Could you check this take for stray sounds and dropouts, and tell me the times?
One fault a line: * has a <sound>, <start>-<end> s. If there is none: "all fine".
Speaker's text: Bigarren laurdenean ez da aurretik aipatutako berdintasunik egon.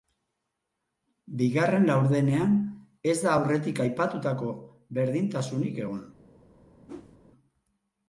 * has a whoosh, 6.9-7.2 s